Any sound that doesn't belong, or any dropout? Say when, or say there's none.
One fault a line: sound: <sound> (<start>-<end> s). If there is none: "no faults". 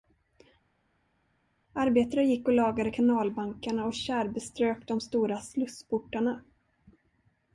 no faults